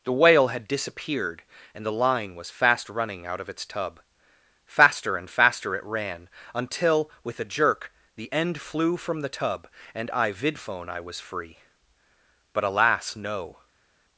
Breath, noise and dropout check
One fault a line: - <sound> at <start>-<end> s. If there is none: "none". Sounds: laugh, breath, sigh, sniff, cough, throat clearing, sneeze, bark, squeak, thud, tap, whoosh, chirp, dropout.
none